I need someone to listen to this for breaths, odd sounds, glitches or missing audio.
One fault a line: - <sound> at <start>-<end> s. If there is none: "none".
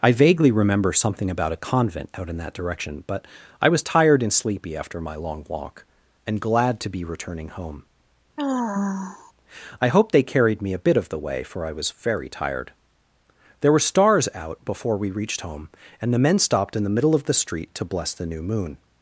- sigh at 8.4-9.3 s